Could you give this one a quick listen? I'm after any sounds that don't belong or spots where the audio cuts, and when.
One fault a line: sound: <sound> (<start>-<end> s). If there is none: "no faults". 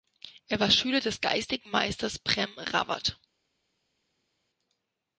no faults